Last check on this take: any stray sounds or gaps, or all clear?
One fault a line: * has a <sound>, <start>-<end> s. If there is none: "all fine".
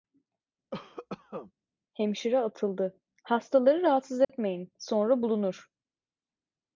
* has a cough, 0.7-1.5 s
* has a dropout, 4.2-4.3 s